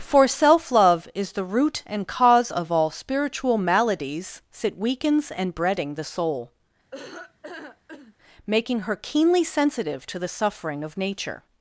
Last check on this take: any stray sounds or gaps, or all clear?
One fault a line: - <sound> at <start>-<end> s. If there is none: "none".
- laugh at 6.9-8.1 s